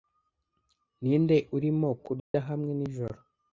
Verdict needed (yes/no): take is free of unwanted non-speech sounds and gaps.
no